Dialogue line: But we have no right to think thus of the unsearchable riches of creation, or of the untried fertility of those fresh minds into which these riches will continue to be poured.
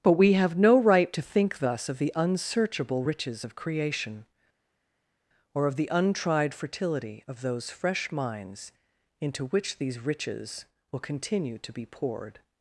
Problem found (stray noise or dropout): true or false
false